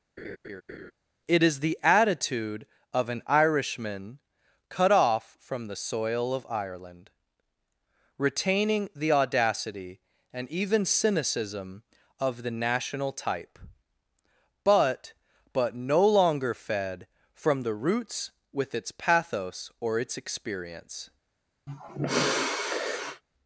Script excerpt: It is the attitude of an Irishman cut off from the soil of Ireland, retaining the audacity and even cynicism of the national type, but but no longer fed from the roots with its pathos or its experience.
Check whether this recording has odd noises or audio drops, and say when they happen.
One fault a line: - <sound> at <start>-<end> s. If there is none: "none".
- laugh at 0.2-0.9 s
- sigh at 21.7-23.2 s